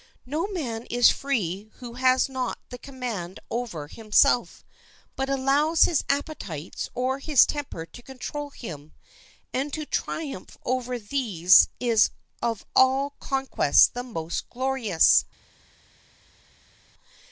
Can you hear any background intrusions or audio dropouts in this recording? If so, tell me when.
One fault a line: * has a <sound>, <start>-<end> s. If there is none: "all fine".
all fine